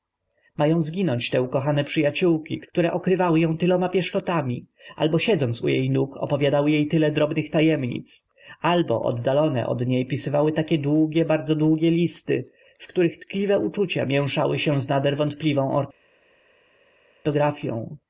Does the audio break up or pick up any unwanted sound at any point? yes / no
no